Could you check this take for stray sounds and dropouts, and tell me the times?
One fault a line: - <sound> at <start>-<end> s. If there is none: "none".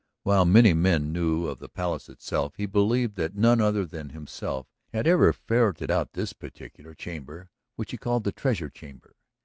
none